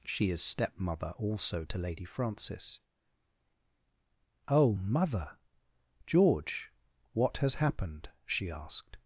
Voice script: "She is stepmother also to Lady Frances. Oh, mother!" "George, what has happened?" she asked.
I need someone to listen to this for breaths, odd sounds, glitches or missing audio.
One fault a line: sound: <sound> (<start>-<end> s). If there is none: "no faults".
no faults